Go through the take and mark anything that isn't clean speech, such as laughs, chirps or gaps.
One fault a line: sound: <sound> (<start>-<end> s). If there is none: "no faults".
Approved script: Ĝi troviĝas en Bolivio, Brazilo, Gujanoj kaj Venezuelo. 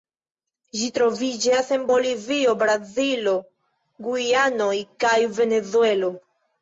no faults